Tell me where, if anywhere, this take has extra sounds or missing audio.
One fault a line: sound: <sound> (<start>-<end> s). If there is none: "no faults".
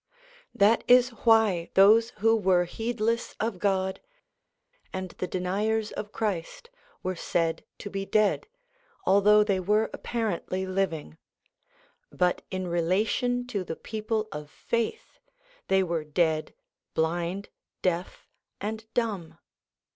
no faults